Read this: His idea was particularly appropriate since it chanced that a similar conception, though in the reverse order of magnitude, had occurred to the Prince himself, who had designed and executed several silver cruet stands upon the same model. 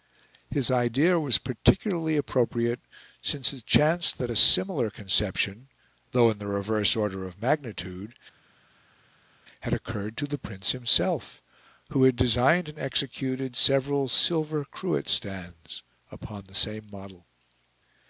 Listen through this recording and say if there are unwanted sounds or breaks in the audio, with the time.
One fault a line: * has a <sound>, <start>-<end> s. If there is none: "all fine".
all fine